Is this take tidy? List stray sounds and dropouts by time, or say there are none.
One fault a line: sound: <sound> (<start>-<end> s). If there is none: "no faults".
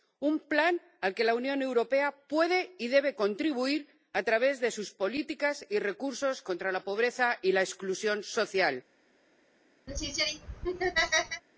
sound: laugh (9.9-11.4 s)